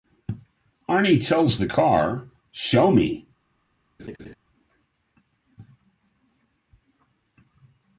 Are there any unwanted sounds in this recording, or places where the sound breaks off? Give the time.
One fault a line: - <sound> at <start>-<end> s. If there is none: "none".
- laugh at 4.0-4.3 s